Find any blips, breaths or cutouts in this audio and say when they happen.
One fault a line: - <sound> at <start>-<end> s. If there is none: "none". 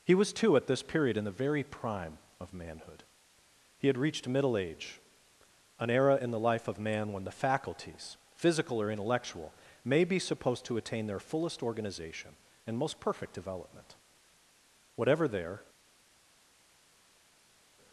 none